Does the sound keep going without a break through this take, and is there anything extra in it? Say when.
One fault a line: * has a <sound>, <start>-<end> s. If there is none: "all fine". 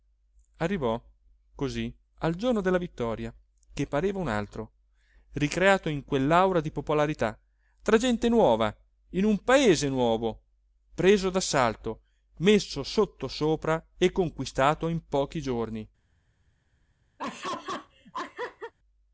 * has a laugh, 17.2-18.7 s